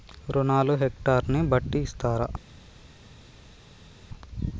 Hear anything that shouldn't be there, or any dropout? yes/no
no